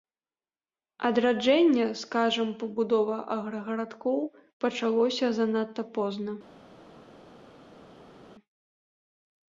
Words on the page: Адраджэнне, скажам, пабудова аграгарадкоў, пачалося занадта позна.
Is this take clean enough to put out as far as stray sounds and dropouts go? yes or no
yes